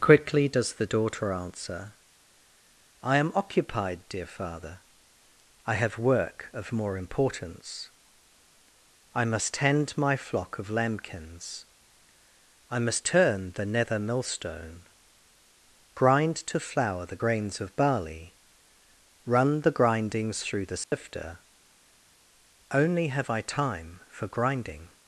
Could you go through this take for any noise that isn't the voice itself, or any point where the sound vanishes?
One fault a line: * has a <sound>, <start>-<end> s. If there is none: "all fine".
* has a dropout, 20.8-20.9 s